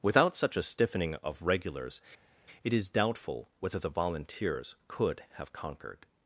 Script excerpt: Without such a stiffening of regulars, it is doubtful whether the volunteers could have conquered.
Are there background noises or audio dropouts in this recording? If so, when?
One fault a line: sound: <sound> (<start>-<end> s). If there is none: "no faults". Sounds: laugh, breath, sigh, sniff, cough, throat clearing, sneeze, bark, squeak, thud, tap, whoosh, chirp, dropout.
no faults